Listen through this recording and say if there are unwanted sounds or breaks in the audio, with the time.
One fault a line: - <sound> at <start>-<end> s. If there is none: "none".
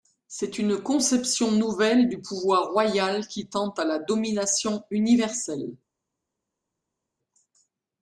none